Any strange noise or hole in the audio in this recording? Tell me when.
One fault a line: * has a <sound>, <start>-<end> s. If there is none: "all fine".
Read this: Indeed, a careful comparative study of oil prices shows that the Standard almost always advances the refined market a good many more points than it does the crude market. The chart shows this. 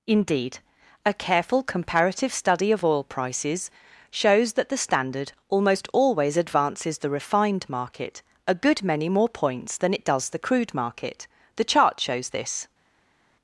all fine